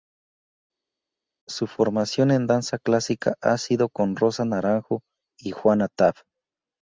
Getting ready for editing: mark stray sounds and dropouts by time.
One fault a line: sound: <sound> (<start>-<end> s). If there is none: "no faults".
no faults